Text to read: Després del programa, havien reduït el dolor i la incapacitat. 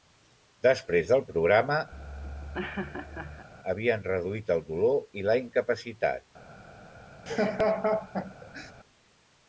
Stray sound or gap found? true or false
true